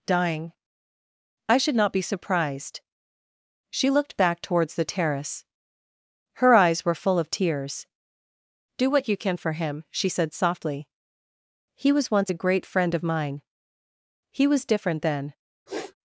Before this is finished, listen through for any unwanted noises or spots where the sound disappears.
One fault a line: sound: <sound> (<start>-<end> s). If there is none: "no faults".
sound: sniff (15.7-15.9 s)